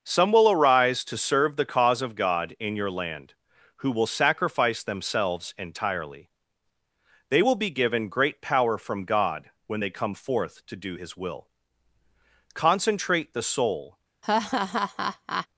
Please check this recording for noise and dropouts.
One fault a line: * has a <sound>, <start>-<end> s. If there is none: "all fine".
* has a laugh, 14.2-15.5 s